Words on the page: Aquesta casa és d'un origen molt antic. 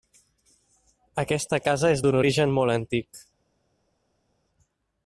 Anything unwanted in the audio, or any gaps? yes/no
no